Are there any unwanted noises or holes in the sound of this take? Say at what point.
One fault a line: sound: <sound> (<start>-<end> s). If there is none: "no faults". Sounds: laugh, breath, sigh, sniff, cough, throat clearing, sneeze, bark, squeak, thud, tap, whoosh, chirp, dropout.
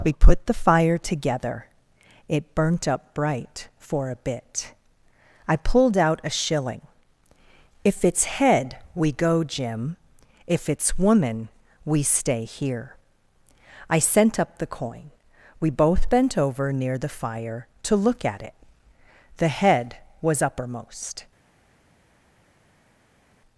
no faults